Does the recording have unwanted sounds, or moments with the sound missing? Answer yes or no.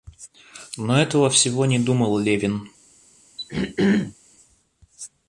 yes